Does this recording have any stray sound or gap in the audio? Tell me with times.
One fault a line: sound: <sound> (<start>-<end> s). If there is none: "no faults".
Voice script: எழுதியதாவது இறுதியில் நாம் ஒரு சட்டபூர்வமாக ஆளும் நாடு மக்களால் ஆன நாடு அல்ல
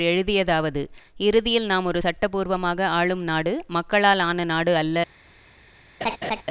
sound: laugh (6.0-6.4 s)